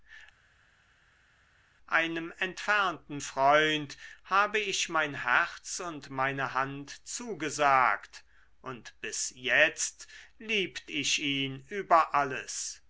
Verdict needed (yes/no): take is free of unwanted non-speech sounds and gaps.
yes